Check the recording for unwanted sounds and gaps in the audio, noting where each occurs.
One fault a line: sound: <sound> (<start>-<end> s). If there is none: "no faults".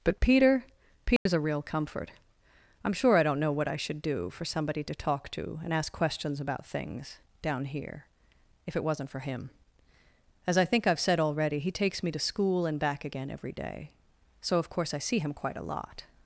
sound: dropout (1.2-1.3 s)